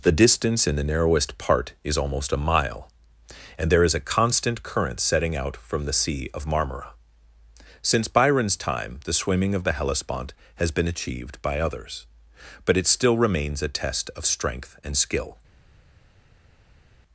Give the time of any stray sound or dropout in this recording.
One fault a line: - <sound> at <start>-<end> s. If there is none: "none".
none